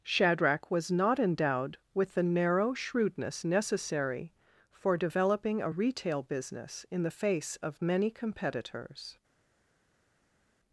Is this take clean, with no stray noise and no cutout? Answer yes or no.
yes